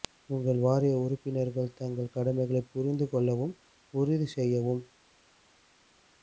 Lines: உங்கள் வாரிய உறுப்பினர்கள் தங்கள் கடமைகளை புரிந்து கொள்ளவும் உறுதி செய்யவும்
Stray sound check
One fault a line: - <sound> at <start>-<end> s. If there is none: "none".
none